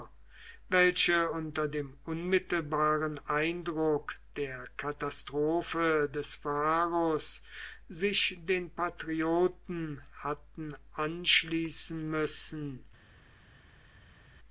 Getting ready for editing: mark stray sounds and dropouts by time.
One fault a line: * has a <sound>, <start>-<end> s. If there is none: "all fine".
all fine